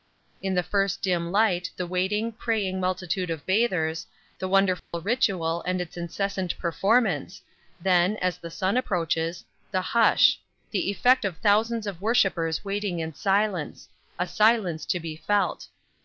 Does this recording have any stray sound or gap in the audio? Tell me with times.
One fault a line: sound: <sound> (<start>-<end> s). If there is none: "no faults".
sound: dropout (4.8-4.9 s)